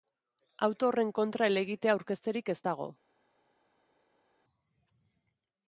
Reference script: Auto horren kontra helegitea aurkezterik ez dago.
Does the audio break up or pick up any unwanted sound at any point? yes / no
no